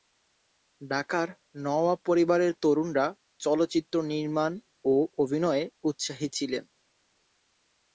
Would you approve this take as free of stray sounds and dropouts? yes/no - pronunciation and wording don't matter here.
yes